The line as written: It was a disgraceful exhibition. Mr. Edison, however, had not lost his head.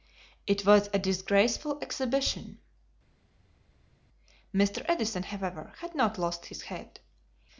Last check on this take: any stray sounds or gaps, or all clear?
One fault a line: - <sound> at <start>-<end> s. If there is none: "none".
none